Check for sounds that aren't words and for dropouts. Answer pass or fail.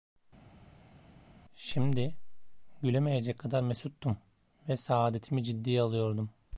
pass